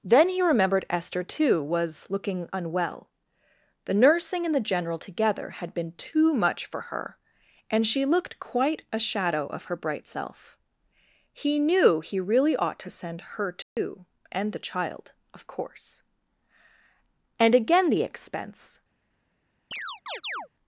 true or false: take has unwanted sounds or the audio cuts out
true